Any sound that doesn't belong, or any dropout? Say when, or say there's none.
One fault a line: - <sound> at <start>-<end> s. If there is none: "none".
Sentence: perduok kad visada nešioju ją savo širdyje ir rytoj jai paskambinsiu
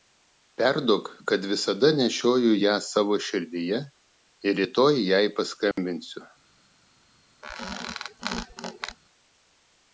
- dropout at 5.7-5.8 s
- squeak at 7.4-9.0 s